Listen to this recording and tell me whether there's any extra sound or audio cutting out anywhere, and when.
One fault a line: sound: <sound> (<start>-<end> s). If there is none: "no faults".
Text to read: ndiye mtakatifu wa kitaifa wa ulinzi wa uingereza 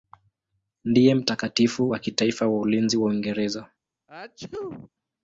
sound: sneeze (4.1-4.9 s)